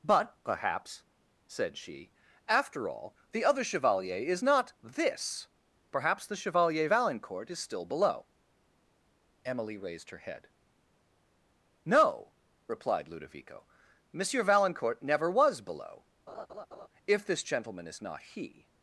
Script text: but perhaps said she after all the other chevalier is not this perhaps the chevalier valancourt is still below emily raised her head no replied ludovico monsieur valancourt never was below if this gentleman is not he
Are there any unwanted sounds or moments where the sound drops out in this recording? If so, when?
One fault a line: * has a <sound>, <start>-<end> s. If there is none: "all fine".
* has a laugh, 16.3-16.9 s